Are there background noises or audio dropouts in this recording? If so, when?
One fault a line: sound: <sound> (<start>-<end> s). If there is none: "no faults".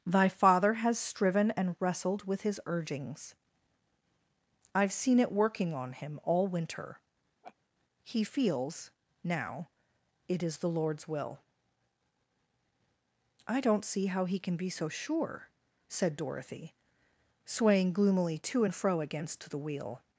sound: laugh (7.4-7.6 s)